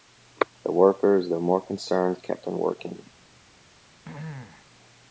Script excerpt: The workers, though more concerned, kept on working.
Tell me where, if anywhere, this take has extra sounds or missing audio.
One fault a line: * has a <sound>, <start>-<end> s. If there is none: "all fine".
* has a throat clearing, 4.0-4.7 s